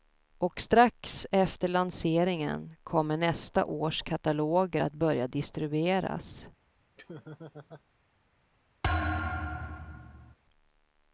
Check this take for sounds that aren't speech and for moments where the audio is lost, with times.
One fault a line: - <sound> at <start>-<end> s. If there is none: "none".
- laugh at 7.0-7.8 s
- thud at 8.8-10.3 s